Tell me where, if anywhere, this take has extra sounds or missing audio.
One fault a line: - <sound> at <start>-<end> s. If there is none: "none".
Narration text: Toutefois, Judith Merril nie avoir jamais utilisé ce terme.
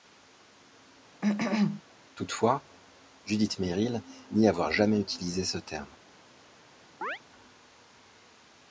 - cough at 1.2-1.8 s
- chirp at 7.0-7.2 s